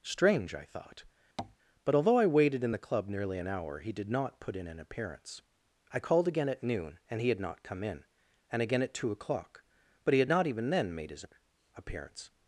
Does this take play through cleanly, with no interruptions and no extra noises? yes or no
no